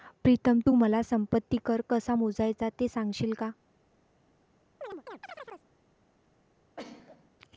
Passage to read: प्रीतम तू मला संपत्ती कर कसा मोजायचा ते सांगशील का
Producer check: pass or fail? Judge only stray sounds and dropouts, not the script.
fail